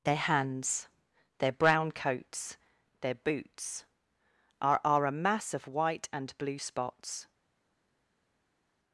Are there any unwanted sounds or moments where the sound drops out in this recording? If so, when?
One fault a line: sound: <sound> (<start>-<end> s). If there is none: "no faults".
no faults